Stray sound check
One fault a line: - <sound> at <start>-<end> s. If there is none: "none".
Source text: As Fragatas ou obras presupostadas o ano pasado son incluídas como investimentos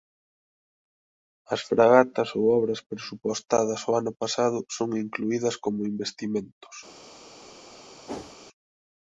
- whoosh at 8.1-8.4 s